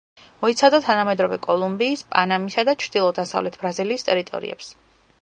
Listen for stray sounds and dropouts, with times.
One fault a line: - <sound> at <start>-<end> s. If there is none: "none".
none